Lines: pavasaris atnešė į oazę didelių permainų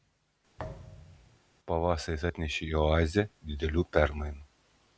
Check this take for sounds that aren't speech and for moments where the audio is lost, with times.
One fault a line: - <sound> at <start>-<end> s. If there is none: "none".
- thud at 0.6-1.4 s